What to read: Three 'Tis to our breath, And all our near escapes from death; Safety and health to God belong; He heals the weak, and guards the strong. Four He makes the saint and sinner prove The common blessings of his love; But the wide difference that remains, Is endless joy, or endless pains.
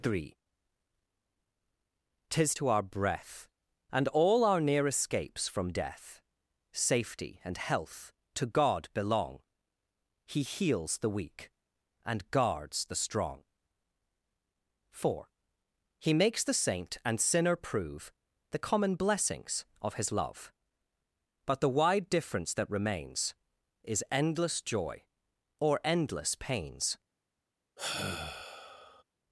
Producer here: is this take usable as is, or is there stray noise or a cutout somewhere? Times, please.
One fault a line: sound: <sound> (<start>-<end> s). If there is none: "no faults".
sound: sigh (27.8-29.0 s)